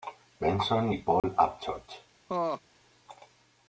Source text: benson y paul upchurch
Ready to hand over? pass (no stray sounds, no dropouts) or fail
fail